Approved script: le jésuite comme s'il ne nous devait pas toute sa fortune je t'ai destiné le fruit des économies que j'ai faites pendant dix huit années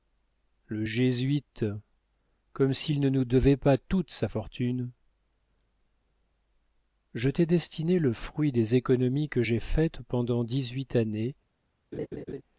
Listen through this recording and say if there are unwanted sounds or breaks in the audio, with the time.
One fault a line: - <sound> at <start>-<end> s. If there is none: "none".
- laugh at 11.9-12.4 s